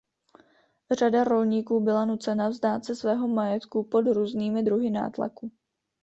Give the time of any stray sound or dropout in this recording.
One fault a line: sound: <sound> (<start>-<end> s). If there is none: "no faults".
no faults